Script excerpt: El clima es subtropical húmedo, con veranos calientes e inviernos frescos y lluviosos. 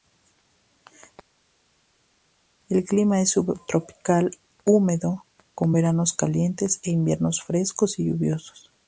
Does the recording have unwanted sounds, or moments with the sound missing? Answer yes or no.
no